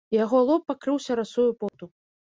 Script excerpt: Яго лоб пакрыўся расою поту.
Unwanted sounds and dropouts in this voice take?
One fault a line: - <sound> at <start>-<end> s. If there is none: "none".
- dropout at 1.7-1.7 s